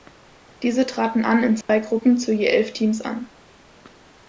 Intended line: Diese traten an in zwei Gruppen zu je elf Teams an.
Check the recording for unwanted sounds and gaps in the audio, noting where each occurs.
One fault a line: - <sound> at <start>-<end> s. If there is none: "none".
- dropout at 1.6-1.7 s